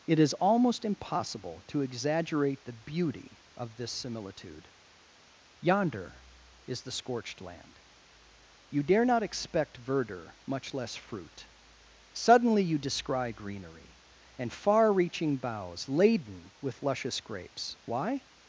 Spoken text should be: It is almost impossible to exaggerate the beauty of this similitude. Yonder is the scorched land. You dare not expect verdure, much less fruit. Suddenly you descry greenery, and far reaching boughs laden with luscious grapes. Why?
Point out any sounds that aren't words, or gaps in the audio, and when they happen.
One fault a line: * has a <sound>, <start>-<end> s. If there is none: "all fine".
all fine